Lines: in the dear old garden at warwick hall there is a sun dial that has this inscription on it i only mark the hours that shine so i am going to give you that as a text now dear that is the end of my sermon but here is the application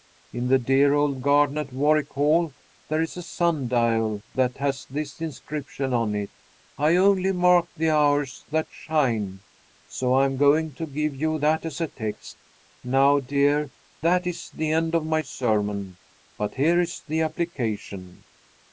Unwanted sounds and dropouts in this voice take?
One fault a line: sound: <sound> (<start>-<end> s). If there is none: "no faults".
no faults